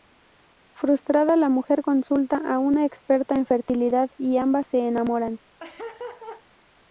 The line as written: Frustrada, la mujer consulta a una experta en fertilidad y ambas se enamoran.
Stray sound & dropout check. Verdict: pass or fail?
fail